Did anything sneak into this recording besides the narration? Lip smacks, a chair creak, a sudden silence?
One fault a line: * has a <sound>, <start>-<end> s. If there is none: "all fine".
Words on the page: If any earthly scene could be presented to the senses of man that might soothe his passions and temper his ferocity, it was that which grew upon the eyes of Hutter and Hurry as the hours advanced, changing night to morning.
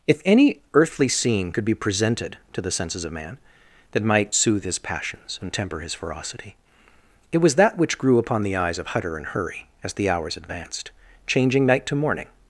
all fine